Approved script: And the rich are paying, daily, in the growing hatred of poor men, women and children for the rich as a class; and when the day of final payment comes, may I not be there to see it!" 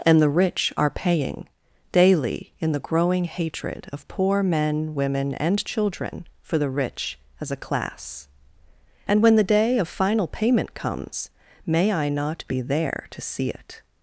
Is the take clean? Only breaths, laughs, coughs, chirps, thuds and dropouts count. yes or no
yes